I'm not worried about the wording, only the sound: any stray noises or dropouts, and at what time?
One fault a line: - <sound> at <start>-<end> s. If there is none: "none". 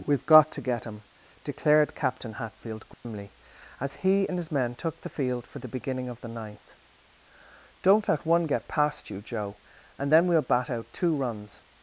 - dropout at 2.9-3.0 s